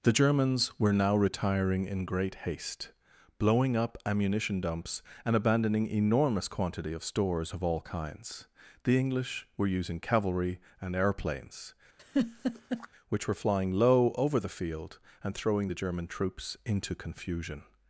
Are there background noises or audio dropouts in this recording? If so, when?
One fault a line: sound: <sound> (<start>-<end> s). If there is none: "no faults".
sound: laugh (12.0-12.9 s)